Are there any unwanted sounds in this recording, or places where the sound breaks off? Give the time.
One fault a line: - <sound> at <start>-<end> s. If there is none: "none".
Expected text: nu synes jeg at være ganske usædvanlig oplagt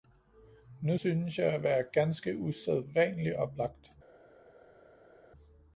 none